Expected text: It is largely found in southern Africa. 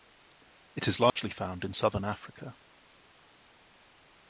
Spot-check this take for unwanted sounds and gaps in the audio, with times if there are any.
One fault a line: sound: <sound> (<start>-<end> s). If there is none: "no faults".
sound: dropout (1.1-1.2 s)